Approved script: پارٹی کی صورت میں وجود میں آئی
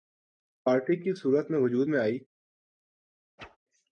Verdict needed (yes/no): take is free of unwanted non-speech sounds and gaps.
no